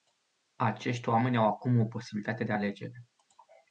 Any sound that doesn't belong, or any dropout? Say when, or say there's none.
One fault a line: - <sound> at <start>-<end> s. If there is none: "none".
none